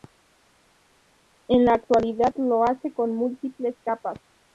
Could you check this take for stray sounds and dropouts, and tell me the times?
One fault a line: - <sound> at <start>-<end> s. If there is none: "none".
none